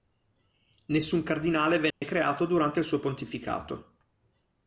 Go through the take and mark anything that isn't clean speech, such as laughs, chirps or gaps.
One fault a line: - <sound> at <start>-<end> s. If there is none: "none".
- dropout at 1.9-2.0 s